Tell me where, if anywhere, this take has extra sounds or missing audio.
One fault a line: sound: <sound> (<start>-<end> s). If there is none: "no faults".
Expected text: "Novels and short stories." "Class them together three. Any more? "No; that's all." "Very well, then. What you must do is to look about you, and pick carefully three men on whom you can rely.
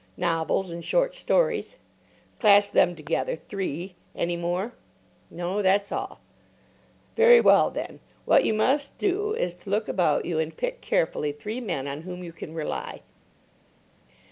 no faults